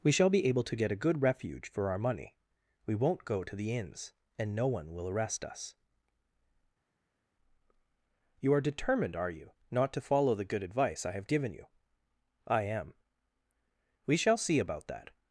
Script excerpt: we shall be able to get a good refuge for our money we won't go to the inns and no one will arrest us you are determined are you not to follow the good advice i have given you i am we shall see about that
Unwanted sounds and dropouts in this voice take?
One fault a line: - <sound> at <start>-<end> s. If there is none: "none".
none